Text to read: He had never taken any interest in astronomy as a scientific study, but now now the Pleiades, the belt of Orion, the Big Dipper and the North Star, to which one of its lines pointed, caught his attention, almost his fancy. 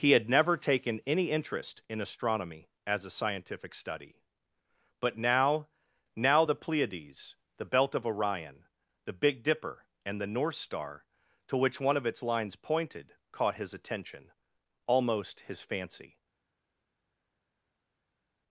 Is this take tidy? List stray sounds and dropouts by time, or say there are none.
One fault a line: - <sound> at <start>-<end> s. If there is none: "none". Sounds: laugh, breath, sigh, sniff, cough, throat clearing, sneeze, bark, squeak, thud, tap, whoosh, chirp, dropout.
none